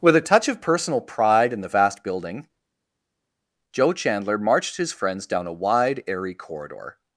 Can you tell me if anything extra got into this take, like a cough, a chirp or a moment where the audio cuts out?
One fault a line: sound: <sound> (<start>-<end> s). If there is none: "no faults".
no faults